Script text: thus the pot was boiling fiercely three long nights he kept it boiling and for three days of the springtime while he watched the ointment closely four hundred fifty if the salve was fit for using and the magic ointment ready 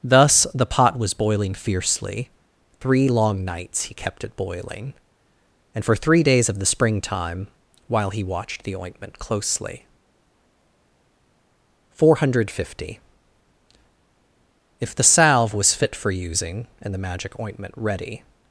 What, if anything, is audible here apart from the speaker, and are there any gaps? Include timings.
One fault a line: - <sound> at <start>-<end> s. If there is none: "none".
none